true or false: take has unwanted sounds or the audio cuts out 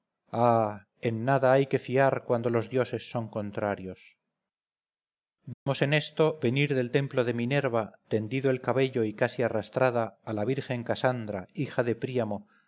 true